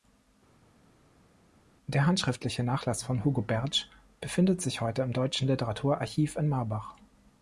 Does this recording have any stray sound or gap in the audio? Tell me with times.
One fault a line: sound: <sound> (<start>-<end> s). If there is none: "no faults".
no faults